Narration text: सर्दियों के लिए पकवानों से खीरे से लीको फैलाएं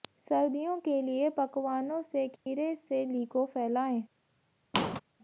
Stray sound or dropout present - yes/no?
yes